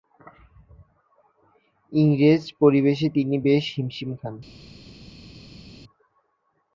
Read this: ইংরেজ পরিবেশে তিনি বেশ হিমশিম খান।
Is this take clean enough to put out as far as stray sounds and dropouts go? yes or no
yes